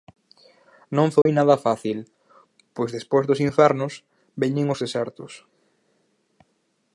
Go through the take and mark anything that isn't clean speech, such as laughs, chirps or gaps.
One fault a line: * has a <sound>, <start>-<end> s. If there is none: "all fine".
* has a dropout, 1.2-1.3 s